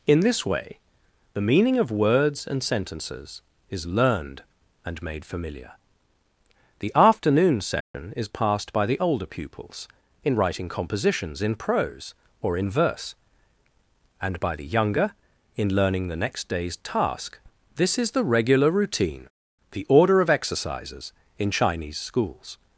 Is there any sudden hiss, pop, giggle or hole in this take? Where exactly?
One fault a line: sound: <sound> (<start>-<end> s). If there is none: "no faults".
sound: dropout (7.8-7.9 s)